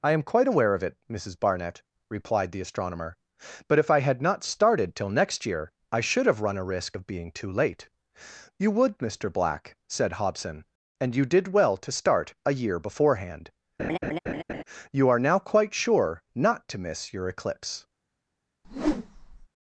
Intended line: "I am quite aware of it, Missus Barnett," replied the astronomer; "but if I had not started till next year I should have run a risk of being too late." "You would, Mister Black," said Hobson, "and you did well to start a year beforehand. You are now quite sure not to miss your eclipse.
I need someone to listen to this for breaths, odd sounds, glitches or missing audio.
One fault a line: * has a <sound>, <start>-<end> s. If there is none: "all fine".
* has a laugh, 13.8-14.6 s
* has a whoosh, 18.6-19.5 s